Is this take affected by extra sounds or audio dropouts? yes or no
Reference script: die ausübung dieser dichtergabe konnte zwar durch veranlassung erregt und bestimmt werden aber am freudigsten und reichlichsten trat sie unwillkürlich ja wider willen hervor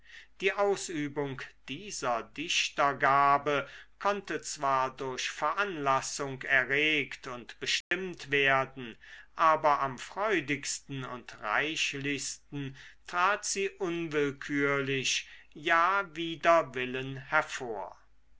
yes